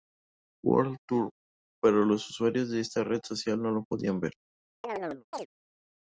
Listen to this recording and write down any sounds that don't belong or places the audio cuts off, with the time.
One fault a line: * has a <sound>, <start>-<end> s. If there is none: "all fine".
* has a chirp, 4.8-5.5 s